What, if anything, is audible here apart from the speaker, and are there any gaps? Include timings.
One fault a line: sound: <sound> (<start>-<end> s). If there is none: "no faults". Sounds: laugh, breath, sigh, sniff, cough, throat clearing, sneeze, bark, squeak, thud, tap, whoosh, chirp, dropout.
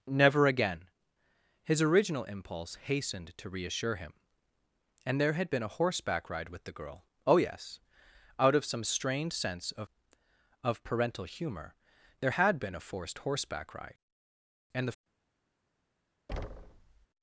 sound: thud (16.3-17.1 s)